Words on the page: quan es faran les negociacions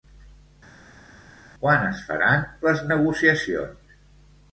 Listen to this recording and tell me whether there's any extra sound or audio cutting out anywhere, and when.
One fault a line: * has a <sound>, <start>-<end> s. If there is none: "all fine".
all fine